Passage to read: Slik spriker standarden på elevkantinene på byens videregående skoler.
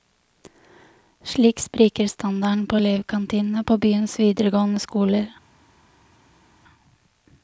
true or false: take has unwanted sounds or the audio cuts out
false